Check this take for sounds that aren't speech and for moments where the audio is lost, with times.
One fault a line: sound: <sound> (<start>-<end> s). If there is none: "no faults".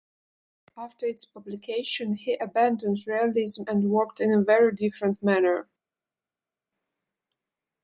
no faults